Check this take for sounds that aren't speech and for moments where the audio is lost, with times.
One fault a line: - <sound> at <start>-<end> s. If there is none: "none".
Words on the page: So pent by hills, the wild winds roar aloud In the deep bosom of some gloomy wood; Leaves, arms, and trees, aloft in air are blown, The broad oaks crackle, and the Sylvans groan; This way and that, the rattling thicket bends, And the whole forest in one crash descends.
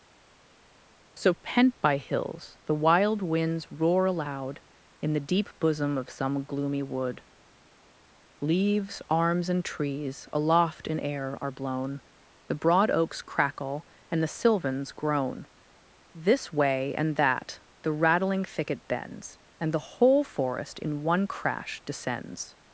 none